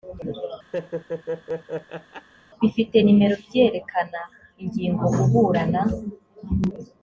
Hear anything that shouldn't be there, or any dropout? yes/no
yes